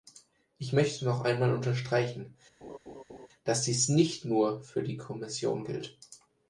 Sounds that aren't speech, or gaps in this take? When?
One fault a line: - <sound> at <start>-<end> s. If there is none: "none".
- laugh at 2.6-3.3 s